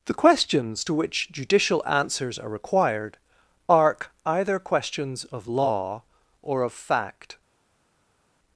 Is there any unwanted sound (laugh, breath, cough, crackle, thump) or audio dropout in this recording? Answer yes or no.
no